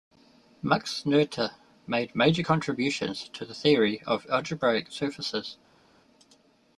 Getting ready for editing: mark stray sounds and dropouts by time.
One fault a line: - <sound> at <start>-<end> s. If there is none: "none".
none